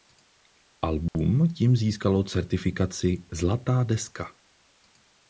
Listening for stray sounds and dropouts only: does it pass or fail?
fail